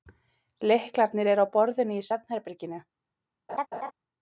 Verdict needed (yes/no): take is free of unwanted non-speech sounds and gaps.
no